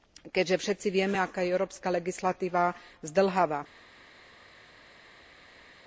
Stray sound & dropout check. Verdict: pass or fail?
pass